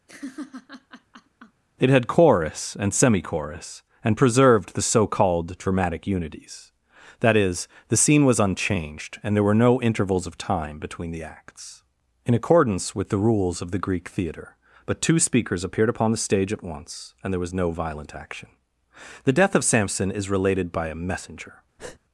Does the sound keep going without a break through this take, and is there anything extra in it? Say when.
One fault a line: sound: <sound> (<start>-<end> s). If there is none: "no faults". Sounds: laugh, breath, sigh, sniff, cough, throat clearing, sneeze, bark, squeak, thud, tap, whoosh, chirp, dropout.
sound: laugh (0.1-1.6 s)
sound: breath (21.8-22.0 s)